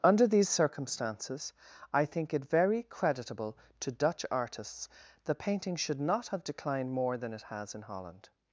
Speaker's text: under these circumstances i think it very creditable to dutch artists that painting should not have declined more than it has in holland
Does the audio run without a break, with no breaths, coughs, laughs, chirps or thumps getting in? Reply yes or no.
yes